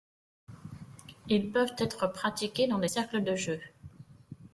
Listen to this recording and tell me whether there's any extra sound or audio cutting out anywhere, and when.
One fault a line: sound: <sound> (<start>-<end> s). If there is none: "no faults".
no faults